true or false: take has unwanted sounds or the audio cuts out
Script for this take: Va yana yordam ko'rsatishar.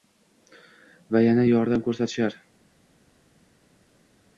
false